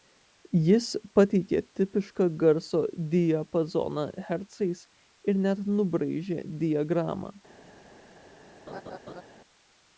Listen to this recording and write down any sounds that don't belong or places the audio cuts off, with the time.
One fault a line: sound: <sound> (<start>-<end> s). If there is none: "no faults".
sound: laugh (8.7-9.2 s)